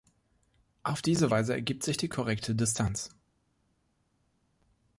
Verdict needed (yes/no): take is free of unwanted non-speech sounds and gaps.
yes